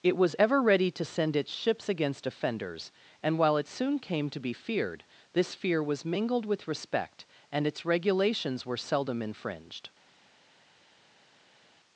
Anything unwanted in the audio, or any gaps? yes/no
no